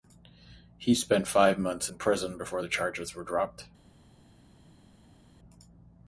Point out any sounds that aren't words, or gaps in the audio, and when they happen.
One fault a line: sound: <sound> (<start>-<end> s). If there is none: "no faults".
no faults